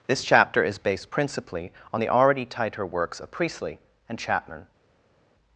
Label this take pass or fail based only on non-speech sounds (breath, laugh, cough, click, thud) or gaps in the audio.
pass